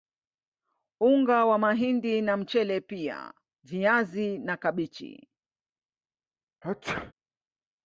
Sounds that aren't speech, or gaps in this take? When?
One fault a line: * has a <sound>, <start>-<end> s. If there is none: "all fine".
* has a sneeze, 6.6-7.1 s